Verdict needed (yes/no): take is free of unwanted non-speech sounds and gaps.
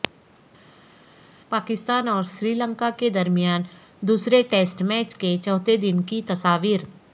yes